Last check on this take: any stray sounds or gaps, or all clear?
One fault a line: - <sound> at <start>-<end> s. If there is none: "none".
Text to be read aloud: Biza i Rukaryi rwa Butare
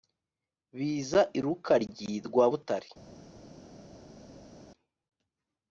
none